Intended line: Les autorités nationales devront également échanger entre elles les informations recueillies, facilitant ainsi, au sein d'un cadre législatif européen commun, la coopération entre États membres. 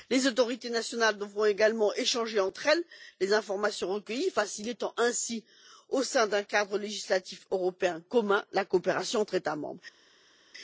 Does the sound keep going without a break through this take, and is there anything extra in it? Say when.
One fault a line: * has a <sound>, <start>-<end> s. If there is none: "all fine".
all fine